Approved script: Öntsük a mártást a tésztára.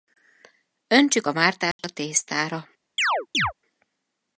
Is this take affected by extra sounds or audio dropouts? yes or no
yes